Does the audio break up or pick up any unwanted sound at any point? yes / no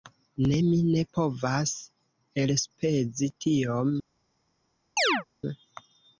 yes